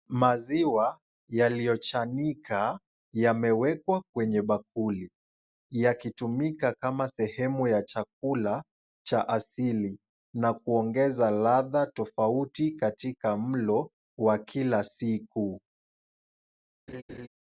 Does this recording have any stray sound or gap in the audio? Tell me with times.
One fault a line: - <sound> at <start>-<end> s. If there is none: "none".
- laugh at 16.9-17.3 s